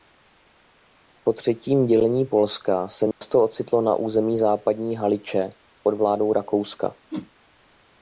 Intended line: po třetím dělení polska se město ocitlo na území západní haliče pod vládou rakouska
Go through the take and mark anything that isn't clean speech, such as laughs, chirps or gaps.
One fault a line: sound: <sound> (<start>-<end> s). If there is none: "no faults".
sound: dropout (3.1-3.2 s)
sound: whoosh (7.1-7.3 s)